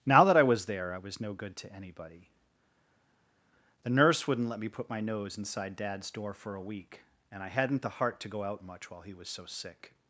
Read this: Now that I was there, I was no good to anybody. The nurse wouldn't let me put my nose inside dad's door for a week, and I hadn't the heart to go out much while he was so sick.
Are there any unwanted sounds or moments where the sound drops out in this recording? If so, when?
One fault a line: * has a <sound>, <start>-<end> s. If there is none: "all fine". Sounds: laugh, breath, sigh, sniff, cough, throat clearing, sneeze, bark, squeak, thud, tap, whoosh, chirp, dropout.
all fine